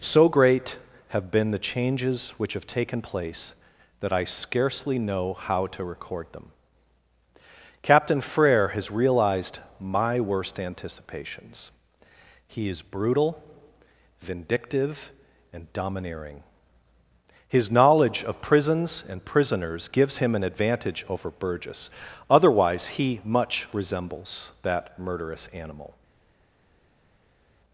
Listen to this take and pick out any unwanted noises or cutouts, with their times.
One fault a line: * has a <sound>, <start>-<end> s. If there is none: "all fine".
all fine